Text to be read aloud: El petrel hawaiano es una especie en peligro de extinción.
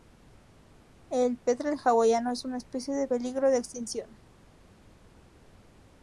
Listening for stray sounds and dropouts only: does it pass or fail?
pass